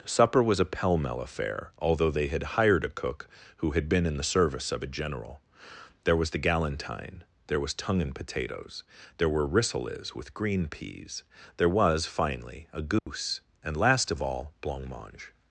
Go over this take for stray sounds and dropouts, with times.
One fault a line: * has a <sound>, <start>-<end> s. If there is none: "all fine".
* has a dropout, 13.0-13.1 s